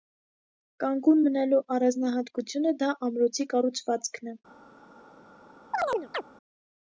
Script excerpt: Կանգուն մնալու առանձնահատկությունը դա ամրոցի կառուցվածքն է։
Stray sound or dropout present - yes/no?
yes